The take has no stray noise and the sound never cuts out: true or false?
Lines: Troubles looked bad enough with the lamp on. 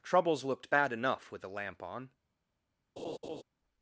false